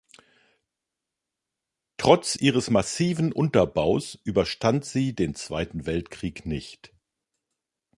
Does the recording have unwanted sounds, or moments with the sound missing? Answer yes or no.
no